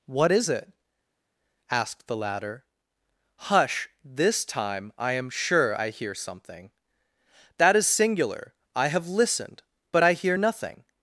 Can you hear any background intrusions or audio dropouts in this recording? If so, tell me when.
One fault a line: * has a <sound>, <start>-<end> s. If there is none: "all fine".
all fine